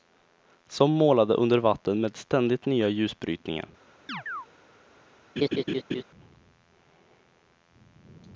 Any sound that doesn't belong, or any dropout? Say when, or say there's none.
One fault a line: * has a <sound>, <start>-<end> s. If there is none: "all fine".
* has a chirp, 4.1-4.5 s
* has a laugh, 5.4-6.0 s